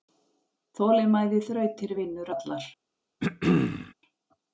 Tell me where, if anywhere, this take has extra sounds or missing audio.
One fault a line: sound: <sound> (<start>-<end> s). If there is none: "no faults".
sound: throat clearing (3.2-3.9 s)